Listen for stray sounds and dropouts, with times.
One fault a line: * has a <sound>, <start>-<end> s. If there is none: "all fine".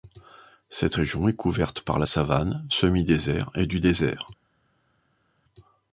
all fine